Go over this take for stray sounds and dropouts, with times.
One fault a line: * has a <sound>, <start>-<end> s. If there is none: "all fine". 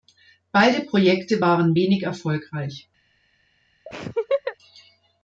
* has a laugh, 3.9-4.6 s